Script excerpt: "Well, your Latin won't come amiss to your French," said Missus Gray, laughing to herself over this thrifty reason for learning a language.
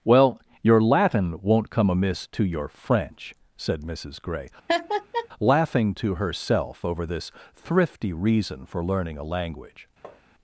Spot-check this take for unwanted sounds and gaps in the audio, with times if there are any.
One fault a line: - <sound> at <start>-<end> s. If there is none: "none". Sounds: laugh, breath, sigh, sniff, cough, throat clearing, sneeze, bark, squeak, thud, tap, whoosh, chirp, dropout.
- laugh at 4.7-5.3 s
- tap at 10.0-10.2 s